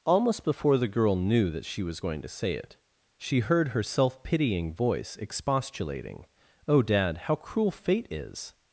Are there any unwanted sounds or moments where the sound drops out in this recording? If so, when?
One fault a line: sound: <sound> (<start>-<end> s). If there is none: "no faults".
no faults